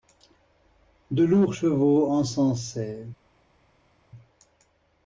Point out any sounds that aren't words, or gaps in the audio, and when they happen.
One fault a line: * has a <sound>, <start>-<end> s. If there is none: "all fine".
all fine